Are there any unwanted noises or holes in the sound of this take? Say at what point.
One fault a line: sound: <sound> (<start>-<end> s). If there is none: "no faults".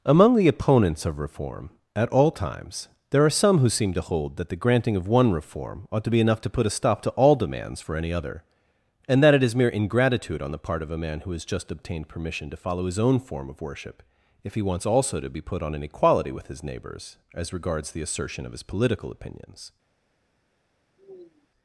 sound: sigh (21.0-21.5 s)